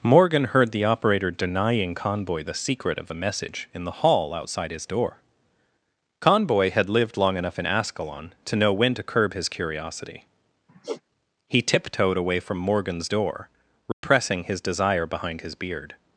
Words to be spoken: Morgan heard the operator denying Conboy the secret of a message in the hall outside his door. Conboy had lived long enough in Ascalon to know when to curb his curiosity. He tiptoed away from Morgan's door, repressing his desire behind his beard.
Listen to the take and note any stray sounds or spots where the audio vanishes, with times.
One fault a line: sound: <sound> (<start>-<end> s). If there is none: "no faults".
sound: sigh (10.7-11.0 s)
sound: dropout (13.9-14.0 s)